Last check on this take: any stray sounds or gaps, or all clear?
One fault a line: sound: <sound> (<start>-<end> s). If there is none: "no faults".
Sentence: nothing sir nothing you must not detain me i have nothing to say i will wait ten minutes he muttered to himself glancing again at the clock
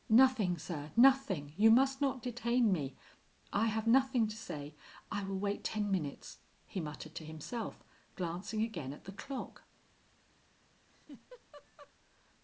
sound: laugh (10.9-11.9 s)